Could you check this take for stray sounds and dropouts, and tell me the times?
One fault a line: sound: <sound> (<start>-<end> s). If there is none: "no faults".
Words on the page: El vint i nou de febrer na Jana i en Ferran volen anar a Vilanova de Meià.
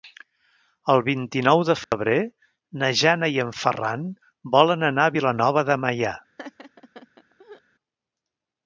sound: dropout (1.8-1.9 s)
sound: laugh (6.4-7.6 s)